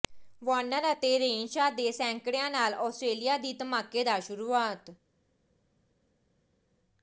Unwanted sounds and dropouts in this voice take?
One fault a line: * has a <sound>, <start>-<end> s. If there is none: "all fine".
all fine